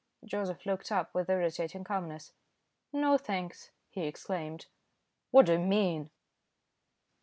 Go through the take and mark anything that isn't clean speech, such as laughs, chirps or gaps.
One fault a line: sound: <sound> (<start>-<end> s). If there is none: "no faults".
no faults